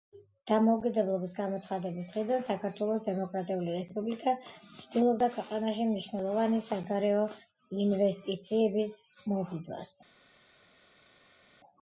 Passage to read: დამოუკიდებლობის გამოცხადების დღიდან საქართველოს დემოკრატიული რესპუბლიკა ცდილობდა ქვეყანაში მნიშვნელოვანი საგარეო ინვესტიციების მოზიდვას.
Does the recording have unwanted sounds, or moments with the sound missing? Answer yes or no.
no